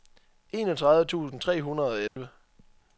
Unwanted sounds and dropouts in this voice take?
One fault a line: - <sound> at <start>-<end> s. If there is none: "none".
- dropout at 2.1-2.2 s